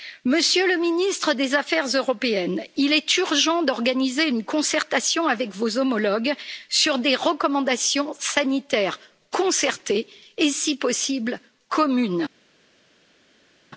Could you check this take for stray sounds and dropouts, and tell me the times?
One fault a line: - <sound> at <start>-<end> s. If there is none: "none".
none